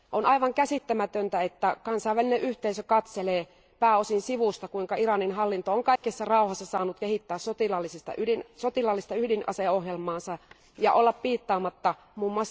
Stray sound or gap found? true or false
true